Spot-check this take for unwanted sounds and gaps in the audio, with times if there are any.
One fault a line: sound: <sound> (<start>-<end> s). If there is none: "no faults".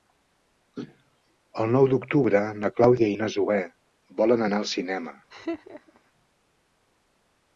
sound: laugh (5.3-6.0 s)